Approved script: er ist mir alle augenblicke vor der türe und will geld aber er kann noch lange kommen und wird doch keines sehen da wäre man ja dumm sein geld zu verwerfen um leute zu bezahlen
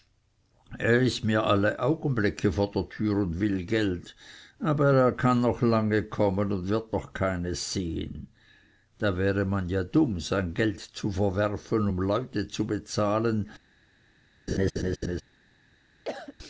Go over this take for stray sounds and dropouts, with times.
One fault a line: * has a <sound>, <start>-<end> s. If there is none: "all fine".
* has a laugh, 14.5-15.2 s
* has a cough, 16.0-16.3 s